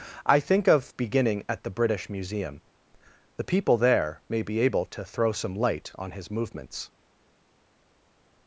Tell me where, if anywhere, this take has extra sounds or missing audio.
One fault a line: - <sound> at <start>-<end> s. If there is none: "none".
none